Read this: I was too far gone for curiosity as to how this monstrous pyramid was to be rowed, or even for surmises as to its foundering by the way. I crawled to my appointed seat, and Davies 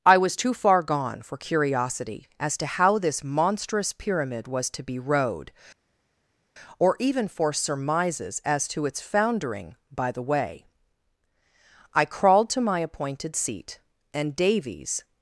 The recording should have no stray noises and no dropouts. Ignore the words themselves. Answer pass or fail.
pass